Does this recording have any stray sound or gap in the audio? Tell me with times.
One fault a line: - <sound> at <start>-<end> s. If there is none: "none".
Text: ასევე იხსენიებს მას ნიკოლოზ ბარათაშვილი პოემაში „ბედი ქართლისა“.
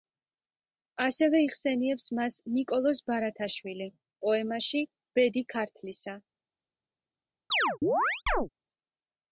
- chirp at 7.5-8.5 s